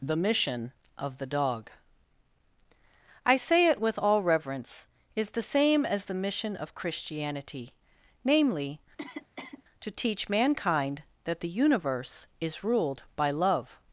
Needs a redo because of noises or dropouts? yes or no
yes